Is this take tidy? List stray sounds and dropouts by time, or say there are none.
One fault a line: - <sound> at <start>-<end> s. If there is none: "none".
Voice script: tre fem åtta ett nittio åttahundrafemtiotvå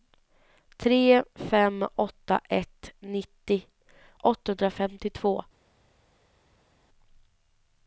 none